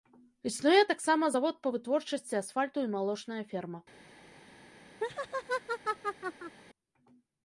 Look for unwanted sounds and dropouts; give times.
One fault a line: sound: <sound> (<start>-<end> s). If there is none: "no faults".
sound: laugh (5.0-6.6 s)